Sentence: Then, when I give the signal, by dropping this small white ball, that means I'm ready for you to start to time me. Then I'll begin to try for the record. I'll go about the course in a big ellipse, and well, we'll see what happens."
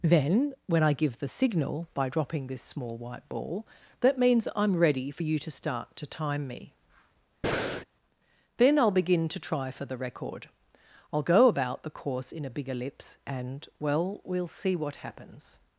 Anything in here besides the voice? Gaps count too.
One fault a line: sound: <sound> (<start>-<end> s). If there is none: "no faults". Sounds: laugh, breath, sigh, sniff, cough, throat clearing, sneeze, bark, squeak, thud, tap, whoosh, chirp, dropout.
sound: breath (7.4-7.9 s)